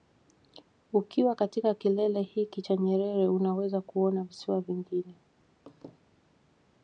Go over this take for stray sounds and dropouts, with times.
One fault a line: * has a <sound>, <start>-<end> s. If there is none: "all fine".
* has a laugh, 5.7-6.0 s